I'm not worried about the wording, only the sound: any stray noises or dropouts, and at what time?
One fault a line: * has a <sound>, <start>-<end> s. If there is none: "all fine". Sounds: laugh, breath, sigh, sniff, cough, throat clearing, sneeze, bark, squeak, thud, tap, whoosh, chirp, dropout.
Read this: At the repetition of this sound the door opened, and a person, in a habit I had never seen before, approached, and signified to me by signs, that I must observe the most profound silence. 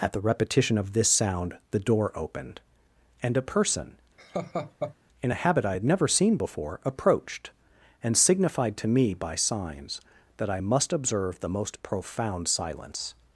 * has a laugh, 4.2-4.9 s